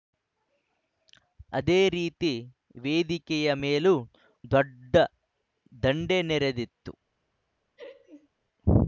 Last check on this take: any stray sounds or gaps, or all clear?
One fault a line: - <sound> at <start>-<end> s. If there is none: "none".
- laugh at 7.8-8.3 s